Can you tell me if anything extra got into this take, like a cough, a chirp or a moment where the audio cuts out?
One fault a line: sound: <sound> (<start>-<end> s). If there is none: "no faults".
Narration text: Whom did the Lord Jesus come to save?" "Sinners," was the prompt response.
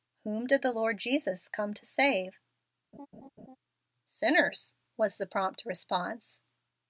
sound: laugh (2.9-3.6 s)